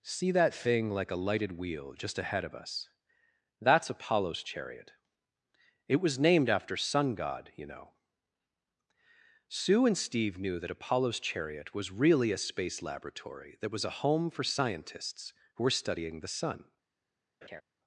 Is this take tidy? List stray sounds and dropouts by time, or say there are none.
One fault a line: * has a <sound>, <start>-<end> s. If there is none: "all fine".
* has a laugh, 17.4-17.6 s